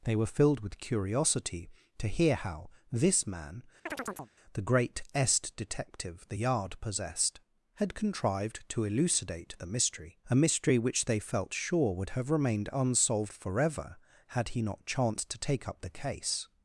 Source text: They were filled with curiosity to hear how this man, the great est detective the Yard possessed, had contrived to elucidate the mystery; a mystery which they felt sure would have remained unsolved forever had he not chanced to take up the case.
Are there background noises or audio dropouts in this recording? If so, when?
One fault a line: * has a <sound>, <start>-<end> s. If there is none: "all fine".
* has a chirp, 3.9-4.3 s